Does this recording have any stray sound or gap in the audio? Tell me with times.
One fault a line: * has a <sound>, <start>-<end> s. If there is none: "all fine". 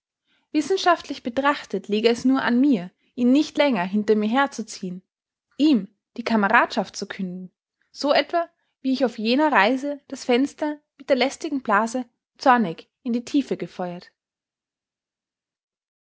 all fine